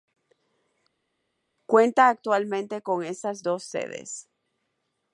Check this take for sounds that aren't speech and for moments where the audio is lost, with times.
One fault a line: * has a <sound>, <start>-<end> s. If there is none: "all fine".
all fine